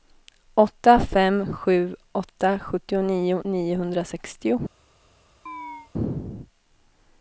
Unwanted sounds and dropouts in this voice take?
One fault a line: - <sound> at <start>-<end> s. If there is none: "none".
- chirp at 5.5-5.9 s